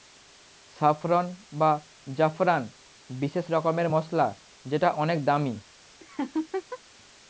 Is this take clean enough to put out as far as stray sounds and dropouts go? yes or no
no